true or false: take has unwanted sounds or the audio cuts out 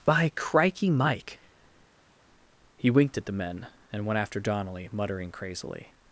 false